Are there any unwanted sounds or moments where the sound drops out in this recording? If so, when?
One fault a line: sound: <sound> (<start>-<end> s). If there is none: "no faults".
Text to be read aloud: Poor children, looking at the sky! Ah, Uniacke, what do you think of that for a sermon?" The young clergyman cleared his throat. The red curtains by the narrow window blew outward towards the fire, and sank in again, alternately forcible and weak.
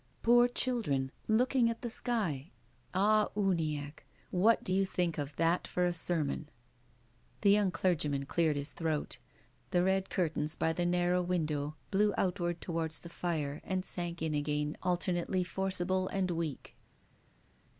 no faults